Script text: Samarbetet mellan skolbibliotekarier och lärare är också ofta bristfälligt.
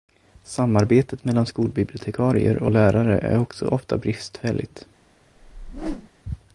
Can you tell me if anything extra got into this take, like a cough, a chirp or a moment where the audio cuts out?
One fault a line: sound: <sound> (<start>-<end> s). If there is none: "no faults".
sound: whoosh (5.4-6.1 s)